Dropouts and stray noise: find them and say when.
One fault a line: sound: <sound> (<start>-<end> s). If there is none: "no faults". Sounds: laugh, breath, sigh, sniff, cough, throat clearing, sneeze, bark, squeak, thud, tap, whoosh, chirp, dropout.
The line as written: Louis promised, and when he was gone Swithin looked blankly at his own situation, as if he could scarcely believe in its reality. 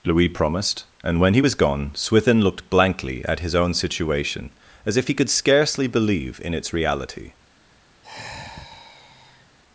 sound: sigh (8.0-9.6 s)